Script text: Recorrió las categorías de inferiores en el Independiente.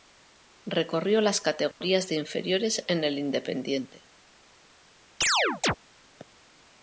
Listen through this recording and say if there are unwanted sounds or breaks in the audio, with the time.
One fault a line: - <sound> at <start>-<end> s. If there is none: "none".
- dropout at 1.7-1.8 s
- chirp at 5.2-5.8 s